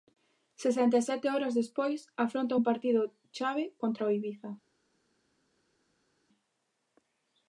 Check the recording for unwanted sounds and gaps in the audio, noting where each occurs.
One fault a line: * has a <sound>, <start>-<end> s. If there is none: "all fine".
all fine